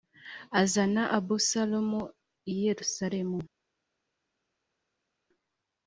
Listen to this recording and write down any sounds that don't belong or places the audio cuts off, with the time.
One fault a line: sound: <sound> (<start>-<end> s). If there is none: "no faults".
no faults